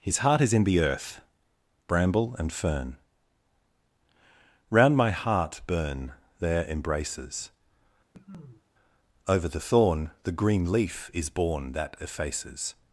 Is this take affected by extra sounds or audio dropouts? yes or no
yes